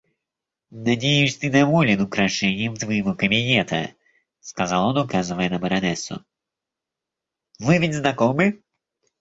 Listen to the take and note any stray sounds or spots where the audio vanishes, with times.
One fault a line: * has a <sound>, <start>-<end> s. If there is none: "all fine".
all fine